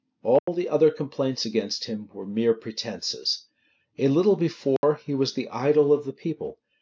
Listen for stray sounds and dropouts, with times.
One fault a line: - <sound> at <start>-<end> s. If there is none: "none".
- dropout at 0.4-0.5 s
- dropout at 4.8-4.8 s